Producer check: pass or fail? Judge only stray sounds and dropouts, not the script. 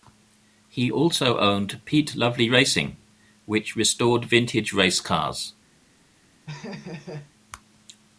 fail